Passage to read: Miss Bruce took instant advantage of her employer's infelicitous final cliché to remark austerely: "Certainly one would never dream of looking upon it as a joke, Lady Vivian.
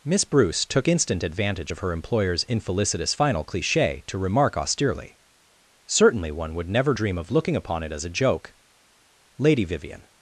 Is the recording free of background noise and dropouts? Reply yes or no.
yes